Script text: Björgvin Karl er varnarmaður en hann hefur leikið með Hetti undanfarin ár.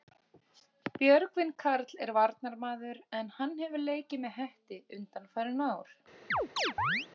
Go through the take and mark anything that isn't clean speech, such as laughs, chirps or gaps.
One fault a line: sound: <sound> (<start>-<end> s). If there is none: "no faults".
sound: chirp (6.3-7.1 s)